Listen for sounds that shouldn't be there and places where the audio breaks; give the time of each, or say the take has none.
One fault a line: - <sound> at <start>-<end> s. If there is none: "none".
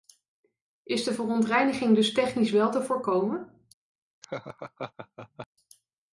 - laugh at 4.2-5.5 s